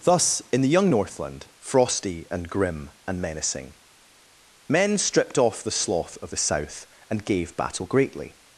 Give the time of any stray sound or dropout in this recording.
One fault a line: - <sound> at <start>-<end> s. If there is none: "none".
none